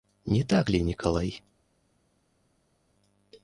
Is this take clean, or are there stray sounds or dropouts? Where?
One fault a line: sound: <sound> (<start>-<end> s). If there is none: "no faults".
no faults